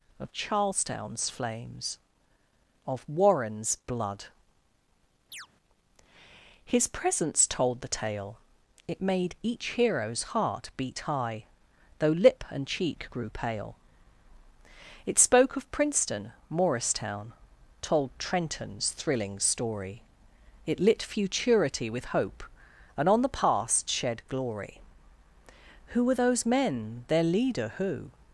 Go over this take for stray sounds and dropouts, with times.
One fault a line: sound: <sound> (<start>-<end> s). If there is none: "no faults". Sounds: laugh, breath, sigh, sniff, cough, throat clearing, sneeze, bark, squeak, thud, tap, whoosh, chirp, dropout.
sound: chirp (5.3-5.5 s)